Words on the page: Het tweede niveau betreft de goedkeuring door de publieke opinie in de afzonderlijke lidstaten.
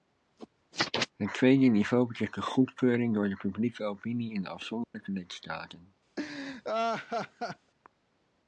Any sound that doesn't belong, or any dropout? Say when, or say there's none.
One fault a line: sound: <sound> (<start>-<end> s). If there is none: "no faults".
sound: dropout (4.8-4.9 s)
sound: laugh (6.2-7.7 s)